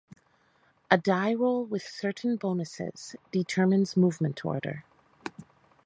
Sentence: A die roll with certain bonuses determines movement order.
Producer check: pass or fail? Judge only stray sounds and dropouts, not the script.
pass